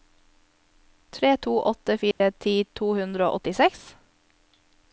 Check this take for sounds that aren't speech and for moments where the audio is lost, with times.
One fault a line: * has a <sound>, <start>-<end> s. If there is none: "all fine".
* has a dropout, 2.1-2.2 s